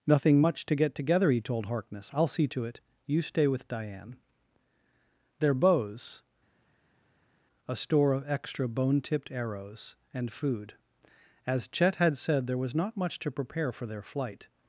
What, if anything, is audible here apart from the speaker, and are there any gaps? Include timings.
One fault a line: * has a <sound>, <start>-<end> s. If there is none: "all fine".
all fine